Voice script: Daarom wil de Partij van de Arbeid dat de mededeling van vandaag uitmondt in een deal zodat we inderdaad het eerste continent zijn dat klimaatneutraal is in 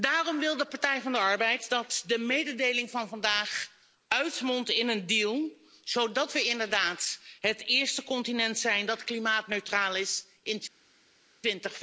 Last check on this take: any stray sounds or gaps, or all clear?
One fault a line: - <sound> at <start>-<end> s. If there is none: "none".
none